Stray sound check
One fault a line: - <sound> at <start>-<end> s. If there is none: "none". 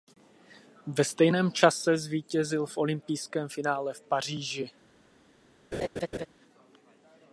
- laugh at 5.7-6.3 s